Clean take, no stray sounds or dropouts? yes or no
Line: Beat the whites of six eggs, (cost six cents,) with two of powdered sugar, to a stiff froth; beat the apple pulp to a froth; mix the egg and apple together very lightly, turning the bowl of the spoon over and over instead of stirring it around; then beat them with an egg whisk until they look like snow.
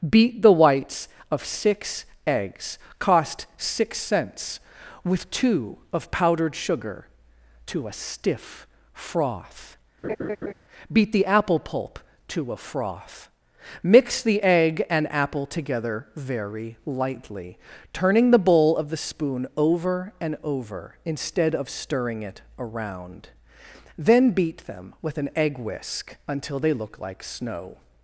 no